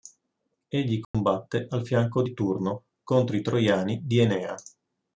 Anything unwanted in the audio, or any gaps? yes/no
yes